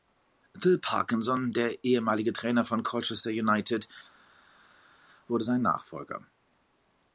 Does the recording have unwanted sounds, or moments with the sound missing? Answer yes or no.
no